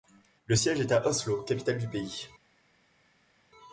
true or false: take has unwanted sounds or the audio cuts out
false